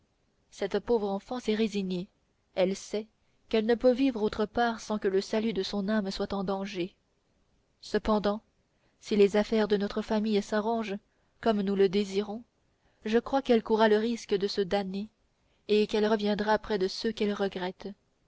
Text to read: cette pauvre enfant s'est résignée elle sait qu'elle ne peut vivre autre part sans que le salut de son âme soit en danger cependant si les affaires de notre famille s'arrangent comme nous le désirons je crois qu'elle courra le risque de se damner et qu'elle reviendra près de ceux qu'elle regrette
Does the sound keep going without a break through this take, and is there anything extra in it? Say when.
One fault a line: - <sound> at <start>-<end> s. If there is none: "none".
none